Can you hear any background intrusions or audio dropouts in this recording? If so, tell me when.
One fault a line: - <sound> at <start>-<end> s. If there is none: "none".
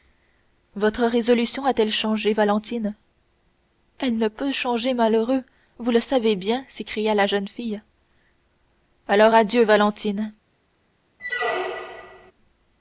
- squeak at 11.2-12.3 s